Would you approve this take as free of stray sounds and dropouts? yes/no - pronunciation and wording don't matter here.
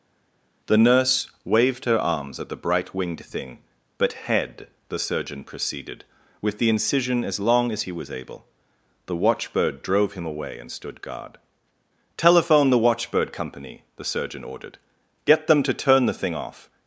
yes